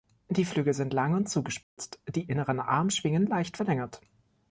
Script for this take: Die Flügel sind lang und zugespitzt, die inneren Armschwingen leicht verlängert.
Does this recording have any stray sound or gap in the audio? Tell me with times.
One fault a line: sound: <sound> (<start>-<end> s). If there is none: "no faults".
sound: dropout (1.6-1.8 s)